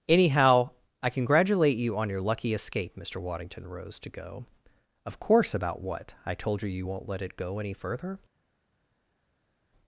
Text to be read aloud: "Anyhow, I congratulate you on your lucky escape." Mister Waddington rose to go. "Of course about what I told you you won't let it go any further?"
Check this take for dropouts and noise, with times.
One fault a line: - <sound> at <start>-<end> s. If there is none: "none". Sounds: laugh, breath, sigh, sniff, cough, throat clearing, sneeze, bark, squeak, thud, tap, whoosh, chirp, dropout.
none